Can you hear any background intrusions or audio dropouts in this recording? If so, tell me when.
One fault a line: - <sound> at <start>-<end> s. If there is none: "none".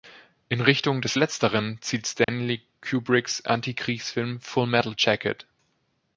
- dropout at 2.2-2.3 s